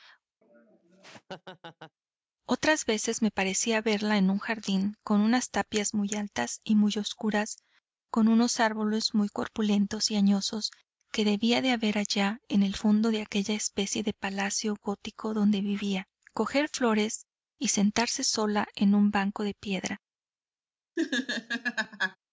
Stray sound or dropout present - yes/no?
yes